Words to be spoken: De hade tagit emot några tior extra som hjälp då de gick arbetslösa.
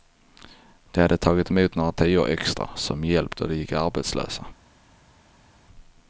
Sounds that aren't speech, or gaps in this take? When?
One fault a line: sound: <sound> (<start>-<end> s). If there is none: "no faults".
no faults